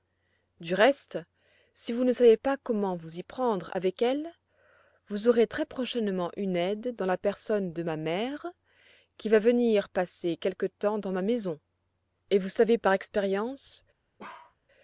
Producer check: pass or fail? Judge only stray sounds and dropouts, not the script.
fail